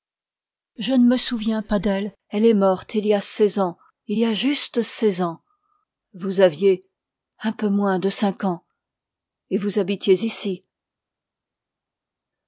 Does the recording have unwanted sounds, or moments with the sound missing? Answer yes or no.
no